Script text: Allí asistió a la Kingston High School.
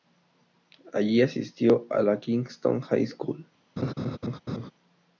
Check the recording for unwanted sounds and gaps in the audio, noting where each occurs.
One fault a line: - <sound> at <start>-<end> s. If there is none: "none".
- laugh at 3.8-4.7 s